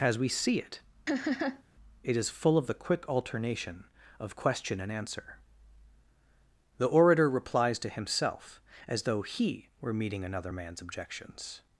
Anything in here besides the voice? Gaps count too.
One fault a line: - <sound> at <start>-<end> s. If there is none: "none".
- laugh at 1.1-1.6 s